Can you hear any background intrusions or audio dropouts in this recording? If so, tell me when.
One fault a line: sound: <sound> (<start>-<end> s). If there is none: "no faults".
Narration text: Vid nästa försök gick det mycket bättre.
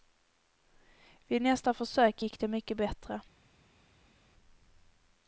no faults